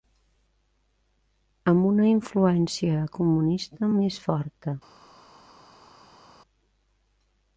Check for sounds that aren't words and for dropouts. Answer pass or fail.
pass